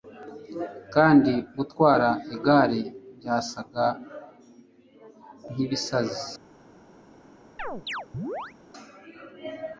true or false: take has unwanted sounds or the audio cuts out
true